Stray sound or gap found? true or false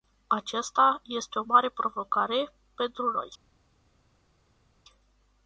false